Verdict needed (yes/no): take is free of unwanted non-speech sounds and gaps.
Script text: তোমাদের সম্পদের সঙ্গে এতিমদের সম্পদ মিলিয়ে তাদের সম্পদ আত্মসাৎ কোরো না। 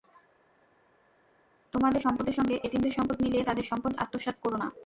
yes